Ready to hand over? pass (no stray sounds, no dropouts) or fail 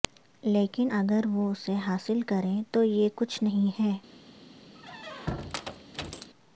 fail